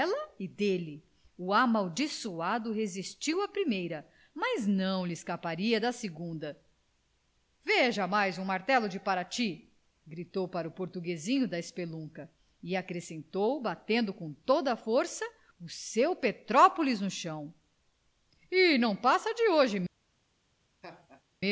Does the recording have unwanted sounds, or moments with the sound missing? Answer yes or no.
yes